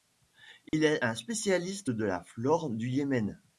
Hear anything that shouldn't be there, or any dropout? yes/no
yes